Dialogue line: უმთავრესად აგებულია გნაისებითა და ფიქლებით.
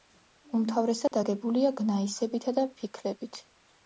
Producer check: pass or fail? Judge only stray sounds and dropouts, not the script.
fail